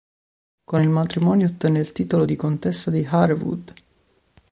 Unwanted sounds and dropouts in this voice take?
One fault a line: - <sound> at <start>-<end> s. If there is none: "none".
none